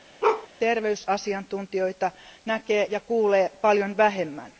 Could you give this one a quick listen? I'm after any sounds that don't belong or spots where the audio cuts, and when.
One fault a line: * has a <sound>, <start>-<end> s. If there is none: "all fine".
* has a bark, 0.2-0.5 s